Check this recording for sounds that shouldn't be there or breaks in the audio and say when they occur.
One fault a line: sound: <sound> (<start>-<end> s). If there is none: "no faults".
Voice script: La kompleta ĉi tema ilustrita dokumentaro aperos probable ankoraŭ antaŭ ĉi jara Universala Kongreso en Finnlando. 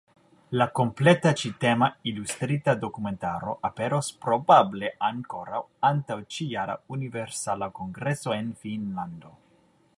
no faults